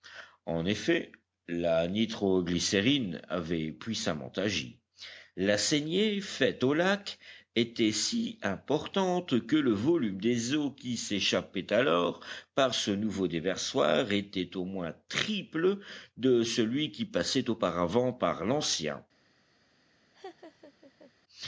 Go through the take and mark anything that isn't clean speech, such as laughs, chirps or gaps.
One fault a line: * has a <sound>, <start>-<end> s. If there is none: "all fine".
* has a laugh, 20.1-21.1 s